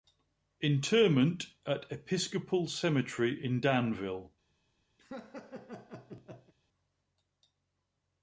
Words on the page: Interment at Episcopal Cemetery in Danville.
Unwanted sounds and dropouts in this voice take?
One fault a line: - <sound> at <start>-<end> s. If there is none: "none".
- laugh at 5.0-6.5 s